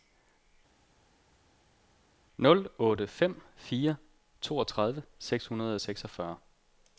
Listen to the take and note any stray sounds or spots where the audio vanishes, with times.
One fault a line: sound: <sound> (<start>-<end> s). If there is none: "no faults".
no faults